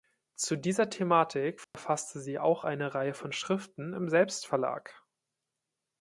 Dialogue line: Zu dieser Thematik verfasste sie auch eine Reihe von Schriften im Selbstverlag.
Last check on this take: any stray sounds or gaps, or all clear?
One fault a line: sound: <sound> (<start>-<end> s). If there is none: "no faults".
sound: dropout (1.6-1.7 s)